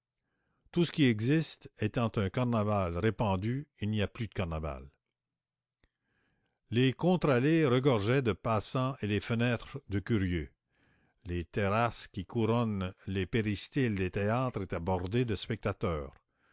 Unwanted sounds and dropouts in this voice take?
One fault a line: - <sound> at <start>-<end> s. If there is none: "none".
none